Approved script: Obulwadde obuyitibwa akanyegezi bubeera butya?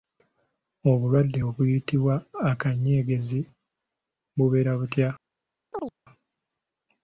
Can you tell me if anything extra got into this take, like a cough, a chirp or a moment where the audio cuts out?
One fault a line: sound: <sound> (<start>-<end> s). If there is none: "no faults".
sound: chirp (5.7-5.9 s)